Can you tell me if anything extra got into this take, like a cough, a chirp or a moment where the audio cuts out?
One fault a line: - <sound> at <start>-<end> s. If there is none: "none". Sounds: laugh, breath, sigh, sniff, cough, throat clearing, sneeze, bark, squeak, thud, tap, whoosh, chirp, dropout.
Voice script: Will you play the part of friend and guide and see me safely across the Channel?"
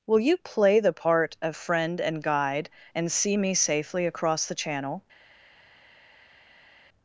none